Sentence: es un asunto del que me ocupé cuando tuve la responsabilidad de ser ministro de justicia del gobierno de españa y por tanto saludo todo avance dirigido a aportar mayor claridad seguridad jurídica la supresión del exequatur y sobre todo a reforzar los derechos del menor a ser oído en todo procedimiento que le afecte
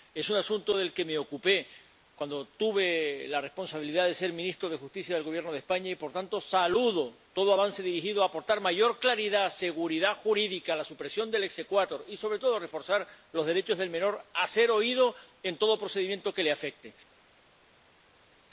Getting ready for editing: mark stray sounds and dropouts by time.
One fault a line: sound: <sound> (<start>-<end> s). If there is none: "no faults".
no faults